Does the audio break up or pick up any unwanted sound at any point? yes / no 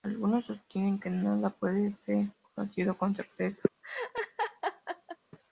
yes